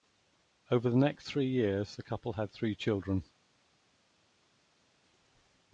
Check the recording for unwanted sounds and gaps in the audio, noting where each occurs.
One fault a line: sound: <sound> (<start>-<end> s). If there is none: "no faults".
no faults